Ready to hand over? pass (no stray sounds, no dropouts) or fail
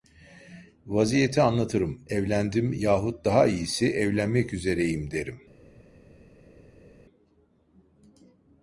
pass